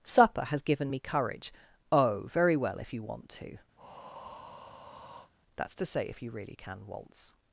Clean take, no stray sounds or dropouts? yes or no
no